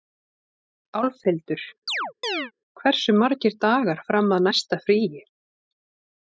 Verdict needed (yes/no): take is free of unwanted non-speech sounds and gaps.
no